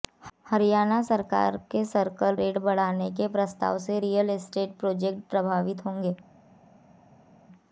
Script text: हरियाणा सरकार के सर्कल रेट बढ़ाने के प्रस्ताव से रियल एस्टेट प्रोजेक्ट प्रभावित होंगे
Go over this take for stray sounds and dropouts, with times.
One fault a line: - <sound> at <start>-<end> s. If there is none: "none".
none